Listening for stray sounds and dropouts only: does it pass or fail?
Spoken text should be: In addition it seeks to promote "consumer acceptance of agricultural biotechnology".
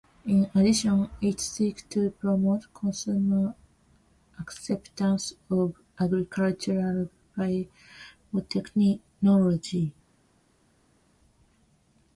pass